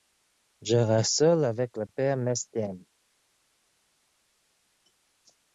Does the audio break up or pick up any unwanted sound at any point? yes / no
no